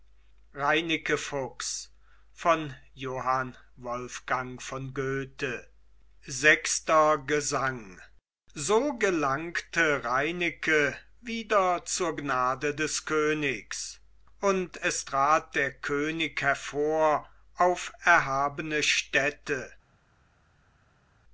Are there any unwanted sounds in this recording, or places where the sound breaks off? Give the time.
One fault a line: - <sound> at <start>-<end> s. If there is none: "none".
none